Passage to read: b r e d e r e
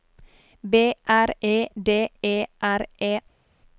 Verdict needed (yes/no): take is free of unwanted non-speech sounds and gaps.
yes